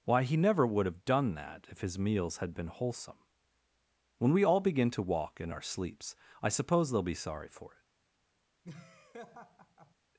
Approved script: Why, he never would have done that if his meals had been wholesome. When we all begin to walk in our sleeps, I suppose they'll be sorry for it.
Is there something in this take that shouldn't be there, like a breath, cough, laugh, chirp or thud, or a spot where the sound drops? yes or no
yes